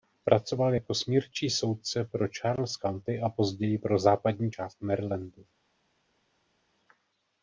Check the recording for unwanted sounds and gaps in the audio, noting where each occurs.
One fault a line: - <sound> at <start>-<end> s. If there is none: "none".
none